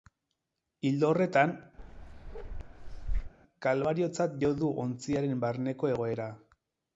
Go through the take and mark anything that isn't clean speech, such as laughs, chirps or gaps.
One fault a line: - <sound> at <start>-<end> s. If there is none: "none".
- bark at 1.8-3.3 s